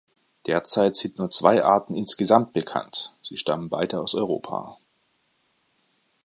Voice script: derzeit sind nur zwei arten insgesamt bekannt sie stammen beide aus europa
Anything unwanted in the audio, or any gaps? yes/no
no